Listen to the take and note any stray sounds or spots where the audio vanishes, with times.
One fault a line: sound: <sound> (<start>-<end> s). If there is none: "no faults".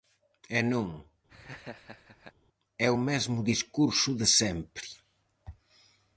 sound: laugh (1.3-2.3 s)